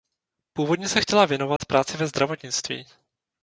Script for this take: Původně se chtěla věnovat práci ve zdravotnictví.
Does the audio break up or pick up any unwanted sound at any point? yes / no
yes